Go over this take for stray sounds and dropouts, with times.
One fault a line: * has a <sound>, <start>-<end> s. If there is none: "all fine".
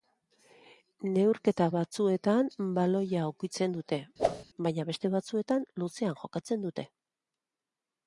* has a whoosh, 4.2-4.4 s